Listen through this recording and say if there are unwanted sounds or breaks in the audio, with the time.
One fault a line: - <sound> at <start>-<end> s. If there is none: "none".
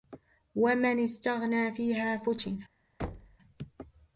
- thud at 3.0-3.4 s